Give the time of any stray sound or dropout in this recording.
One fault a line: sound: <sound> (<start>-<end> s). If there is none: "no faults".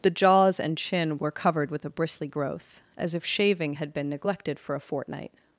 no faults